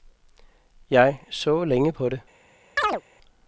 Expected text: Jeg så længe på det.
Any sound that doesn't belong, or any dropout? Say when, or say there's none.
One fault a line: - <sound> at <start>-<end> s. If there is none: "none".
- chirp at 2.8-3.0 s